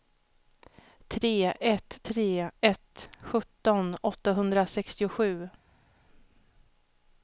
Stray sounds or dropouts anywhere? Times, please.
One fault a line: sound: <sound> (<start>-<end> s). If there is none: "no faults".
no faults